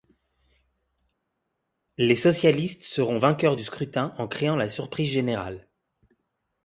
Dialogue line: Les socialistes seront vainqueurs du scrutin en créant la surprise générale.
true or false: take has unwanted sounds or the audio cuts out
false